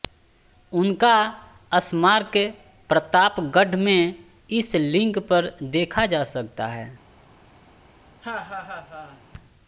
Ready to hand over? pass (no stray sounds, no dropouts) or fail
fail